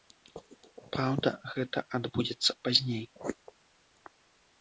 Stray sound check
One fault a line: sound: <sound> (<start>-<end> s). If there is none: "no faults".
no faults